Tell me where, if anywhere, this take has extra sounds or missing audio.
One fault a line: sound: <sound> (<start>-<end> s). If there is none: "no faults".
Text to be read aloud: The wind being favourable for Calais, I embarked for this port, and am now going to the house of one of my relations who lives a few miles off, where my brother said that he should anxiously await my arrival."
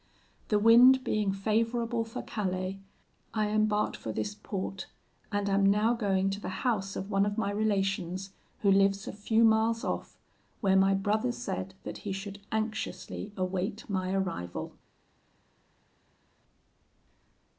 no faults